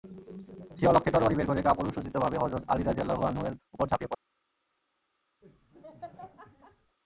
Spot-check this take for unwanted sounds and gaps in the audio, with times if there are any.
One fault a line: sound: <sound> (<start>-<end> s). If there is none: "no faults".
sound: laugh (5.4-7.0 s)